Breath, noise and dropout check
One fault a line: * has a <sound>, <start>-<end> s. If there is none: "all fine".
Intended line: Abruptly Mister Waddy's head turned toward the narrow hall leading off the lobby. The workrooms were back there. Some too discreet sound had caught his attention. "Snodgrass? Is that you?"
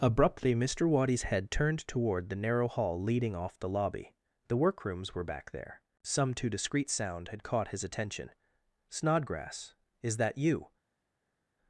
all fine